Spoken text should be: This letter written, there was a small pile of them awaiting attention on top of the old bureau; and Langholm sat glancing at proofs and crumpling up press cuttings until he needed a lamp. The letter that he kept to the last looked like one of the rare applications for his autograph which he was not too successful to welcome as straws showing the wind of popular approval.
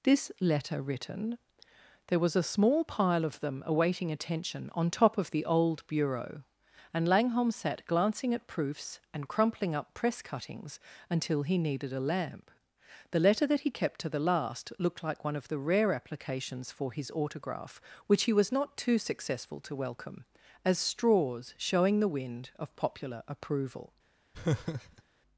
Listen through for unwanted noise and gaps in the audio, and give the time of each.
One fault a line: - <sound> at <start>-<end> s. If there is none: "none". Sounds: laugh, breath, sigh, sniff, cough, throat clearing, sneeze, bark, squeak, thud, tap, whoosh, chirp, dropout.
- laugh at 24.3-25.0 s